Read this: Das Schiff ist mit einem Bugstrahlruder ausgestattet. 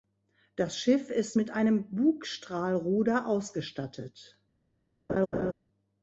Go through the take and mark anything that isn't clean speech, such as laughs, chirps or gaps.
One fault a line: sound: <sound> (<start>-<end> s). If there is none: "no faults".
sound: laugh (5.1-5.5 s)